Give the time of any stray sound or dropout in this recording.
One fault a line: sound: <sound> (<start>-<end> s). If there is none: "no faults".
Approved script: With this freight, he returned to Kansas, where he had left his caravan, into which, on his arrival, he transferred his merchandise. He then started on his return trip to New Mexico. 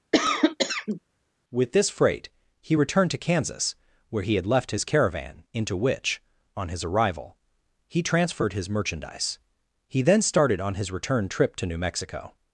sound: cough (0.1-1.0 s)